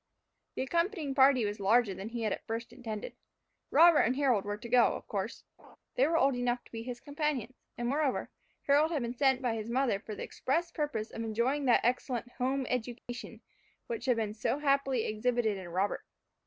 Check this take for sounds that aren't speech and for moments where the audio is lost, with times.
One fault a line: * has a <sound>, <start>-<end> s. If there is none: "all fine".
* has a laugh, 5.6-5.8 s
* has a dropout, 13.0-13.1 s